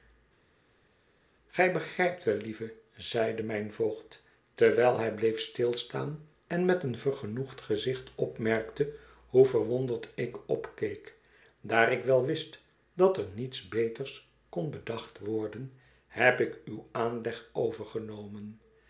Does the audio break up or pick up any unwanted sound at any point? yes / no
no